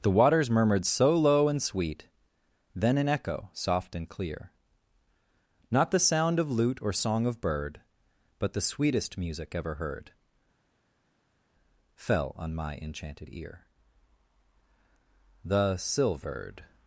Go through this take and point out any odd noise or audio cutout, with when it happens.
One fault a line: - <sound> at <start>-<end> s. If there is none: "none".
none